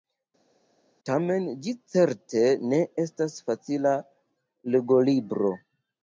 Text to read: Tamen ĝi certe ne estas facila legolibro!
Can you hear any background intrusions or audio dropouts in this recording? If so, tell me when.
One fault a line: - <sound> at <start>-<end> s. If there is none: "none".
none